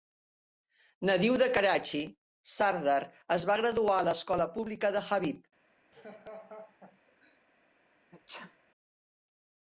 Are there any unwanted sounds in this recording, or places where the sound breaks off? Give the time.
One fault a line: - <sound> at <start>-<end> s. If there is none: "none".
- laugh at 5.9-7.4 s
- sneeze at 8.1-8.6 s